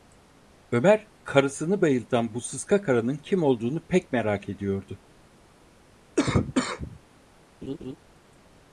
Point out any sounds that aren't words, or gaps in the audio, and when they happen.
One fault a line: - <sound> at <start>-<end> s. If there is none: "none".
- cough at 6.2-7.0 s
- laugh at 7.6-8.0 s